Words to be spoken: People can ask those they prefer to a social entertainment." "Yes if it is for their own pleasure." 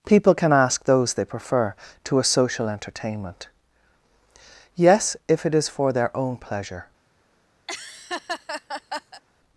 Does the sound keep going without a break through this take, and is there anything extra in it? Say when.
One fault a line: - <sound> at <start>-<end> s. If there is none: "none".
- laugh at 7.7-9.2 s